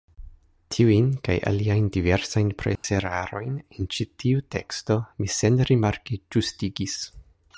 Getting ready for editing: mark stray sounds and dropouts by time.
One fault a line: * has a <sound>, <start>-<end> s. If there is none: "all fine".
* has a dropout, 2.8-2.8 s